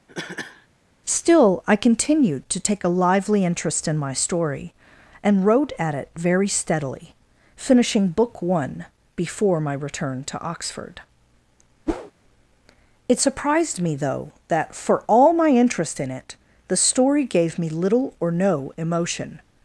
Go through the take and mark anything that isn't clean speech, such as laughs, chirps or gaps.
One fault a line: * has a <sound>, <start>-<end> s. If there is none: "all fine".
* has a cough, 0.1-0.7 s
* has a whoosh, 11.9-12.1 s